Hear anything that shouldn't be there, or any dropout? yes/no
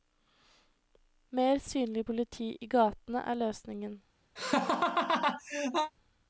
yes